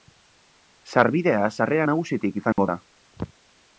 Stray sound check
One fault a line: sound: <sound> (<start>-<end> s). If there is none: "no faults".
sound: dropout (2.5-2.6 s)